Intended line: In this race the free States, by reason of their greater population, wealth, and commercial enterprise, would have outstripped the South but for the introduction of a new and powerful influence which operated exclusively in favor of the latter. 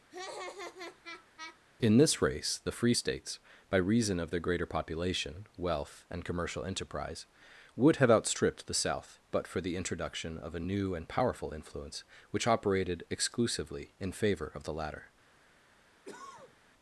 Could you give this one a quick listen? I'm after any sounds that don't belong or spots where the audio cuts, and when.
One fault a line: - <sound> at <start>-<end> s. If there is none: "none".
- laugh at 0.1-1.6 s
- cough at 16.0-16.6 s